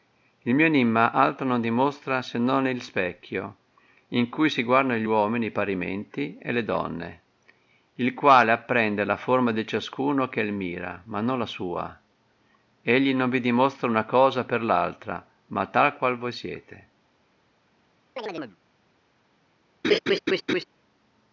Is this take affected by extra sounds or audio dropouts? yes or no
yes